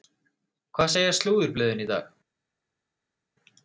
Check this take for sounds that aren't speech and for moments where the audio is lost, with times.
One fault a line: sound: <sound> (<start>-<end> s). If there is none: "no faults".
no faults